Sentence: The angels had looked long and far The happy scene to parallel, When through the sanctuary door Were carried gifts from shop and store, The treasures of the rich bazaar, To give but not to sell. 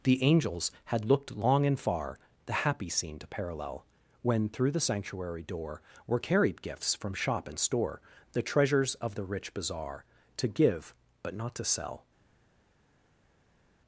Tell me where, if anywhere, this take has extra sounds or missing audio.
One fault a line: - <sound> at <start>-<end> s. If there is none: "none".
none